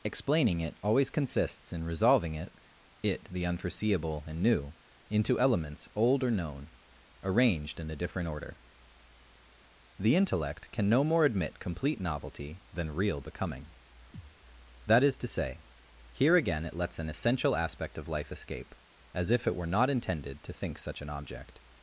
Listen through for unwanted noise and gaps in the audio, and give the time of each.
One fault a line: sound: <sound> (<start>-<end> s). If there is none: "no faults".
sound: thud (14.1-14.4 s)